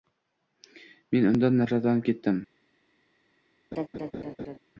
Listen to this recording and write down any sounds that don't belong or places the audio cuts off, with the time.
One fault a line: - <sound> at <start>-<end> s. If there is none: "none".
- laugh at 3.7-4.6 s